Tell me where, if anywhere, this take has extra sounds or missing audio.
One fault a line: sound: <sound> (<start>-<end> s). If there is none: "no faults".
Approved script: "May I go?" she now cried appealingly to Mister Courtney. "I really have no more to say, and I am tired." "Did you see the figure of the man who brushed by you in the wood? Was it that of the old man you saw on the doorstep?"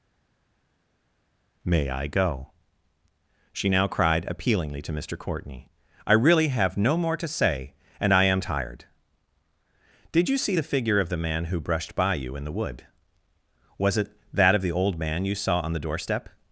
no faults